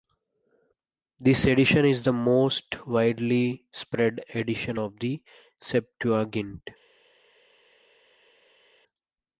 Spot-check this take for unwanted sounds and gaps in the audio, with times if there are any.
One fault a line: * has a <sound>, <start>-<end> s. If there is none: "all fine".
all fine